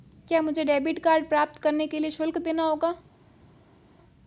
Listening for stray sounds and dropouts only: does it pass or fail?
pass